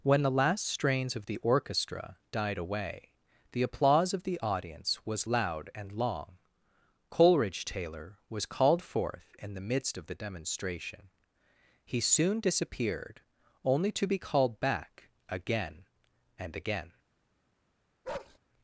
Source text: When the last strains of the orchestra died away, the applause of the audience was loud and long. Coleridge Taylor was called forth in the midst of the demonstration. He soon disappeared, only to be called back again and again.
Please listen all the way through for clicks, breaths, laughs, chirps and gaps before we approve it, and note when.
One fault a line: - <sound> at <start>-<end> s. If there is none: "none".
- bark at 18.0-18.4 s